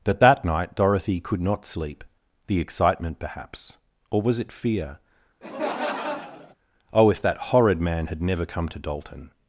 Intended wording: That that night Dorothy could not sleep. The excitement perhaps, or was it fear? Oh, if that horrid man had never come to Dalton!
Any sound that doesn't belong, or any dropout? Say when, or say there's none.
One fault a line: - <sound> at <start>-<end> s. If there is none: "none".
- laugh at 5.4-6.5 s